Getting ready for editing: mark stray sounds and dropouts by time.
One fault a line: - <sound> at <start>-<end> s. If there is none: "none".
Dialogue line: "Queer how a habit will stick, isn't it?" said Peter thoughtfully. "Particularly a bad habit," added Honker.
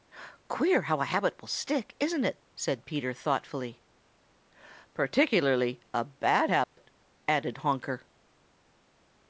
- dropout at 6.6-6.8 s